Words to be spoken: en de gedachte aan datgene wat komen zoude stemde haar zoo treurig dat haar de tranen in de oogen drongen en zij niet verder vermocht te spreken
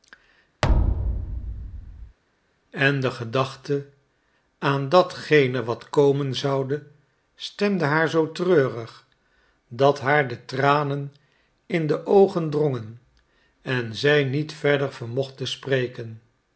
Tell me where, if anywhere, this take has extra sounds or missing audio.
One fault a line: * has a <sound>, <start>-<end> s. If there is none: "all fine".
* has a thud, 0.6-2.2 s